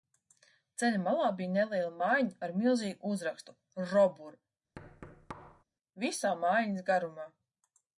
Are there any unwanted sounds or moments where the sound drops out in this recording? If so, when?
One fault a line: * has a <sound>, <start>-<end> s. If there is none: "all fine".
* has a thud, 4.8-5.6 s